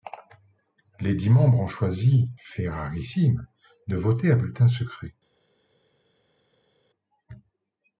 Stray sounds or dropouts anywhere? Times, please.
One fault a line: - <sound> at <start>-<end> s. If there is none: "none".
none